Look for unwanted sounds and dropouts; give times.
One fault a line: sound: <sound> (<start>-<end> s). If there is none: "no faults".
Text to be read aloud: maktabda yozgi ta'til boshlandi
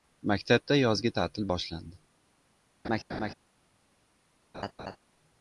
sound: laugh (2.8-3.3 s)
sound: laugh (4.5-5.0 s)